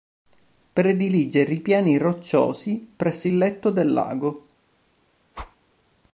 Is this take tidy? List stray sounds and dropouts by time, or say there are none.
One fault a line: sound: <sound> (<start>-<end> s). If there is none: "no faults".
sound: whoosh (5.3-5.6 s)